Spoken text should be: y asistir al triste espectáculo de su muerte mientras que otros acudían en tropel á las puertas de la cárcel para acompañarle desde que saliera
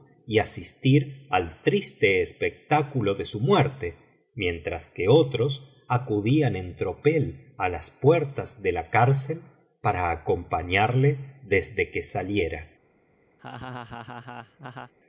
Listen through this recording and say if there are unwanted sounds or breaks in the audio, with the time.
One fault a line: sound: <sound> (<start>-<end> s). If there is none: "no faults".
sound: laugh (13.4-14.9 s)